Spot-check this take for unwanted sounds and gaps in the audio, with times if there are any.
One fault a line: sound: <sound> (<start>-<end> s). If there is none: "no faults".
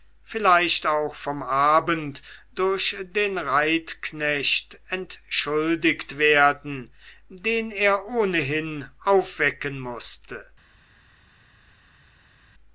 no faults